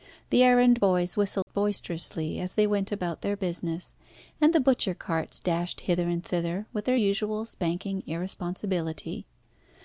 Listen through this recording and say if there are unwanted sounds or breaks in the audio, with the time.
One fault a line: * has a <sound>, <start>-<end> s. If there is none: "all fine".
* has a dropout, 1.4-1.5 s